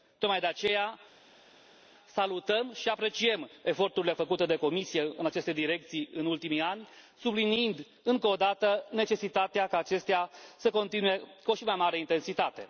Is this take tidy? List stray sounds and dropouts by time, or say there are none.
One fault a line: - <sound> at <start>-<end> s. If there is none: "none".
none